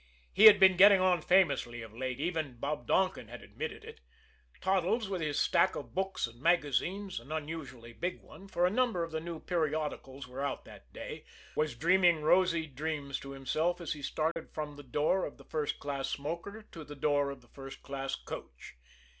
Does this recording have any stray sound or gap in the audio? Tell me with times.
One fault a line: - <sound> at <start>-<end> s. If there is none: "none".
- dropout at 14.3-14.4 s